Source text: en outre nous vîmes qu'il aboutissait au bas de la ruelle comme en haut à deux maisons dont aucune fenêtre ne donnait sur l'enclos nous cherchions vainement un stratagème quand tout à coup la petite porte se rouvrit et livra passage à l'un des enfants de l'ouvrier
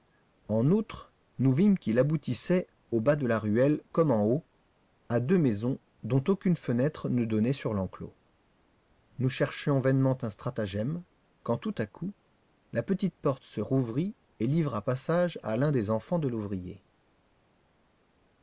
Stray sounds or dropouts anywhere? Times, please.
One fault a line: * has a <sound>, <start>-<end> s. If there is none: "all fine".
all fine